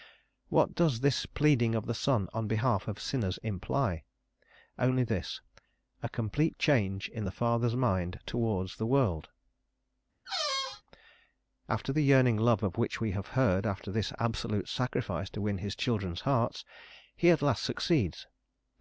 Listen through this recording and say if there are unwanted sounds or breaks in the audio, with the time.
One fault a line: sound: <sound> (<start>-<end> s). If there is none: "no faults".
sound: squeak (10.3-10.8 s)